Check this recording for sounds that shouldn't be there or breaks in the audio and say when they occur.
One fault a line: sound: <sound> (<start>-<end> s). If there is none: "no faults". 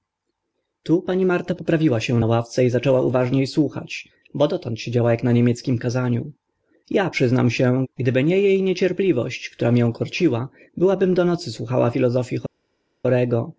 no faults